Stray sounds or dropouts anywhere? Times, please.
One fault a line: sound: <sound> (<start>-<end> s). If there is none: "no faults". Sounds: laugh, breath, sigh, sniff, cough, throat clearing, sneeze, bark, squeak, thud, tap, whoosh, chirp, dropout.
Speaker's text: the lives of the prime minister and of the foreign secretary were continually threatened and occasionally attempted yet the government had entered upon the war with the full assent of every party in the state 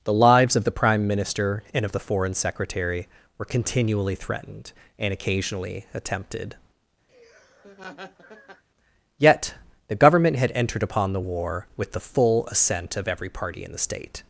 sound: laugh (7.1-8.6 s)